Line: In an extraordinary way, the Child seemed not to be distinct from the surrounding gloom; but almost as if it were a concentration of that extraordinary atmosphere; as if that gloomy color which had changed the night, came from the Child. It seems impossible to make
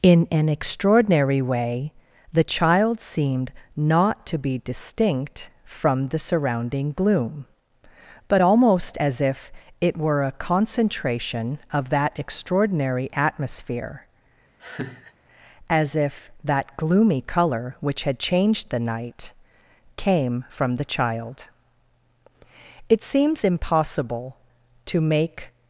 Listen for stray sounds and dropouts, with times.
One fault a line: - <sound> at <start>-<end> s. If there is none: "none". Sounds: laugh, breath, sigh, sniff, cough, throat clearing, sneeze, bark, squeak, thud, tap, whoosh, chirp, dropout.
- laugh at 14.6-15.1 s